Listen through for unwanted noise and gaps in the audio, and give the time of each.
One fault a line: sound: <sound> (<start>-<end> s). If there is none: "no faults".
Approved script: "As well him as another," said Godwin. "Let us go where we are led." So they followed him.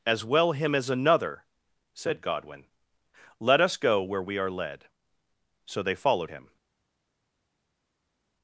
no faults